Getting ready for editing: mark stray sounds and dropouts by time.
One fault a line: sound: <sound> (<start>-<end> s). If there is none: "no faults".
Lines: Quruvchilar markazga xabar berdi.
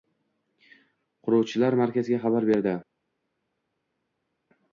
no faults